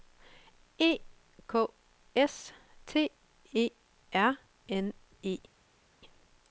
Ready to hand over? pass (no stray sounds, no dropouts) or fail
pass